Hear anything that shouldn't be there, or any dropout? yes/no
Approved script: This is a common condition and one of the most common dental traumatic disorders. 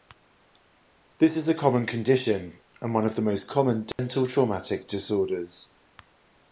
yes